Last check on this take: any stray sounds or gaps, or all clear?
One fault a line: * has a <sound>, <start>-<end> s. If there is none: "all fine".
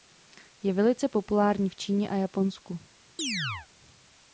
* has a chirp, 3.2-3.7 s